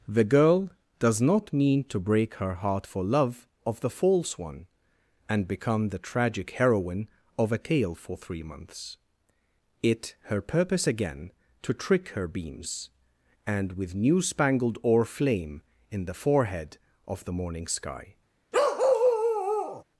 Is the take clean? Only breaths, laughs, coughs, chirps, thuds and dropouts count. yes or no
no